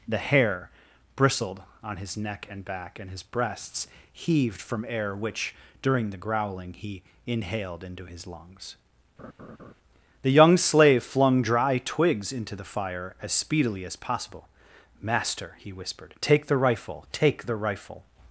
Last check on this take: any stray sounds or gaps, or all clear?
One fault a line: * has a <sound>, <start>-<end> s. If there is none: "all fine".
* has a laugh, 9.2-9.7 s